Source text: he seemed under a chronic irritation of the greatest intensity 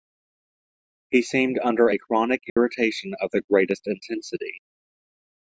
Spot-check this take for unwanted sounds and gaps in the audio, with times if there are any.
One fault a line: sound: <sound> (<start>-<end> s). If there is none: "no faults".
sound: dropout (2.5-2.6 s)